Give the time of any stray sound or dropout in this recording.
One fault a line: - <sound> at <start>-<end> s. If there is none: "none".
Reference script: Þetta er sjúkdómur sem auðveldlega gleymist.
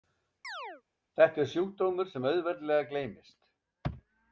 - chirp at 0.4-0.8 s